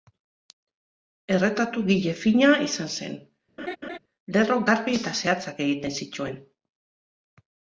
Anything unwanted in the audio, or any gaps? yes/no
yes